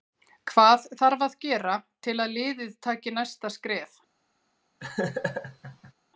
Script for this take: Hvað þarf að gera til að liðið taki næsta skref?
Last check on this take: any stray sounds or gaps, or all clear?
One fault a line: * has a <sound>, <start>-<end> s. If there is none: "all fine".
* has a laugh, 4.8-5.9 s